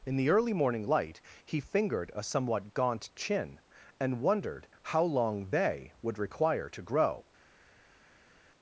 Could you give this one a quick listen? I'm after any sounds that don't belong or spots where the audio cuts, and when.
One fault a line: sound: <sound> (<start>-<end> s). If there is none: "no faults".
no faults